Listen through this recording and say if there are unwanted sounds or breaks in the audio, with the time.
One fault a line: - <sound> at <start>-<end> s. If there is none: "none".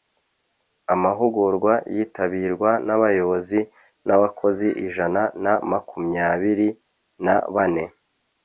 none